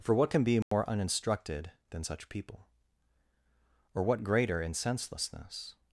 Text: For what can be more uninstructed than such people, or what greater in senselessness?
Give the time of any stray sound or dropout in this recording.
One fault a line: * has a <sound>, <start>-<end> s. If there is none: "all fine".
* has a dropout, 0.6-0.7 s